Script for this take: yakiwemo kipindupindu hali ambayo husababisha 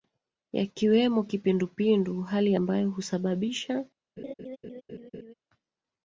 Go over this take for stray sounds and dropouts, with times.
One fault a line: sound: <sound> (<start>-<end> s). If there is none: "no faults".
sound: laugh (4.2-5.3 s)